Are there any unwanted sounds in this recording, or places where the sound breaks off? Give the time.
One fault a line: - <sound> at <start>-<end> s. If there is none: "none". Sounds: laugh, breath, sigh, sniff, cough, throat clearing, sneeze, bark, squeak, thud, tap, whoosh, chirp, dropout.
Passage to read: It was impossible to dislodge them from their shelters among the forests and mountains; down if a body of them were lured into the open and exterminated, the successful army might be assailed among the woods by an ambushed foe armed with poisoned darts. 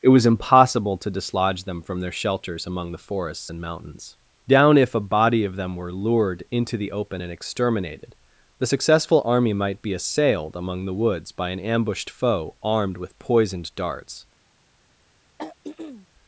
- throat clearing at 15.4-16.1 s